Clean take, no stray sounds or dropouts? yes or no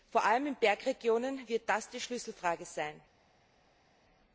yes